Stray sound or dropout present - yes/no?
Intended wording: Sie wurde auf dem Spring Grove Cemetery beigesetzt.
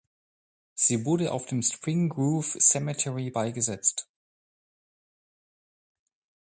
no